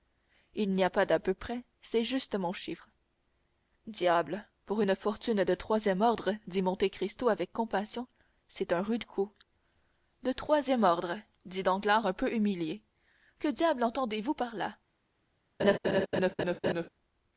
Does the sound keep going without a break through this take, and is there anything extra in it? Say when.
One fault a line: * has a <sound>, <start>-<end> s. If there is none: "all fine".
* has a laugh, 15.6-16.9 s